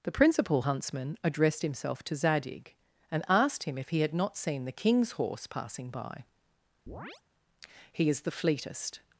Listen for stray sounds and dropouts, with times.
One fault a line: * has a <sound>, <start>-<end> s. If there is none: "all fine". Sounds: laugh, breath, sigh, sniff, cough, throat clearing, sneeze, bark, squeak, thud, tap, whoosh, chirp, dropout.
* has a chirp, 6.9-7.2 s